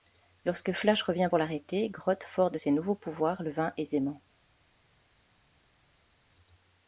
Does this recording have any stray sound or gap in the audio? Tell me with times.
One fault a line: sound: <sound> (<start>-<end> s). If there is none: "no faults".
no faults